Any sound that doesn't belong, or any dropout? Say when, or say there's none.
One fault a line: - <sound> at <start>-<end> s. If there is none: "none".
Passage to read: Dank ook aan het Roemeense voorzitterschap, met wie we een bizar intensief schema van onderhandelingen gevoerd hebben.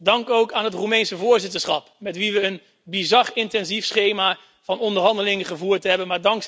none